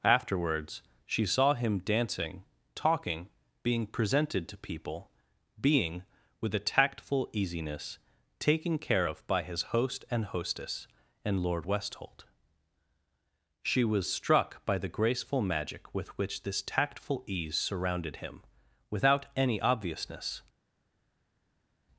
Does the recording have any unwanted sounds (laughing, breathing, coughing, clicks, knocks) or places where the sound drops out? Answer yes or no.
no